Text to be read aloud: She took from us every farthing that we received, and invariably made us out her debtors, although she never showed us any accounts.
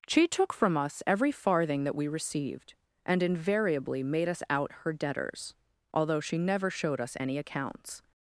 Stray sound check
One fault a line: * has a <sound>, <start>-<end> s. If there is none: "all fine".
all fine